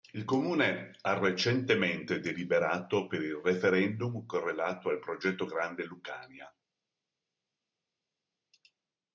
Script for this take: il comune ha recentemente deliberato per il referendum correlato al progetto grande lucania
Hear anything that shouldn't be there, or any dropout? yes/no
no